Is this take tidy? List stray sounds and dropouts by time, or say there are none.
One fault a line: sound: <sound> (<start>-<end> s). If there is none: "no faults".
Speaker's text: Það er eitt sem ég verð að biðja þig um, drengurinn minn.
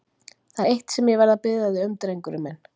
no faults